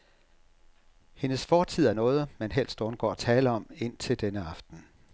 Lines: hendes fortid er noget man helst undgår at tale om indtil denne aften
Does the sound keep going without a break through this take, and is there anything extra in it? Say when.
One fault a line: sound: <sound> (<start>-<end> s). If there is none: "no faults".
no faults